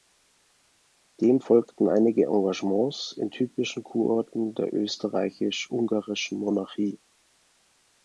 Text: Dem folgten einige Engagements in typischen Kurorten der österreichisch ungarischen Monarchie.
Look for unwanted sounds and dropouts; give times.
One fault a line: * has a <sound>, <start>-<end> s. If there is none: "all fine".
all fine